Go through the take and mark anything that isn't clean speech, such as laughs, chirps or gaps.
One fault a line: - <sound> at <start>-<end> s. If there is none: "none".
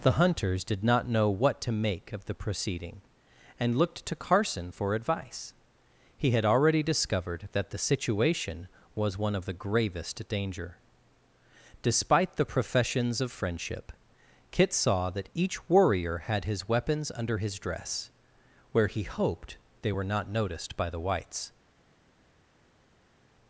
none